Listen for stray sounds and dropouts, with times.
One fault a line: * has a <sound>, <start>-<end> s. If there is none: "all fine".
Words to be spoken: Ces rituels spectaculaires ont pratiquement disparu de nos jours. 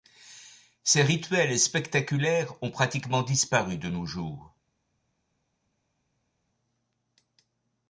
all fine